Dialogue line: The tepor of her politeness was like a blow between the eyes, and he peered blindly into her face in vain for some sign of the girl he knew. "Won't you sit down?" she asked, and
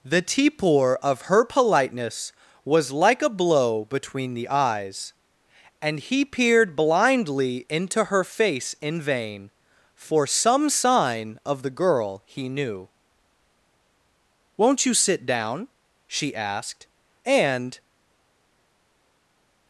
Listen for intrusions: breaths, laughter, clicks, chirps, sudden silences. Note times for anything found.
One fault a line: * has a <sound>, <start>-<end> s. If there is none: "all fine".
all fine